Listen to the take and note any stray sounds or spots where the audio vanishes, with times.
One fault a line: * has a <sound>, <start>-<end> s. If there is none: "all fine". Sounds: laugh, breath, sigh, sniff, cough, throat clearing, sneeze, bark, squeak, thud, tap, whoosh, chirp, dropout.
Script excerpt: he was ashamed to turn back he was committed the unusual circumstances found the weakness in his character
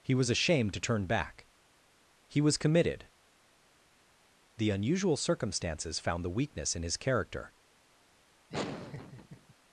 * has a laugh, 8.5-9.5 s